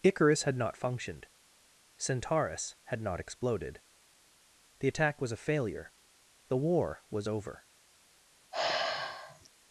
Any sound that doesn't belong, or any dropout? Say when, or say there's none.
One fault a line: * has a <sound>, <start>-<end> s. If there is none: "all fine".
* has a sigh, 8.5-9.5 s